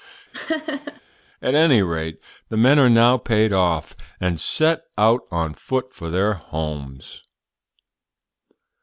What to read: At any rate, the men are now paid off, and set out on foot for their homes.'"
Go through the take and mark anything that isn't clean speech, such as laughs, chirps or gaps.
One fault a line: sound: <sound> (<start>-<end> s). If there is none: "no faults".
sound: laugh (0.3-1.0 s)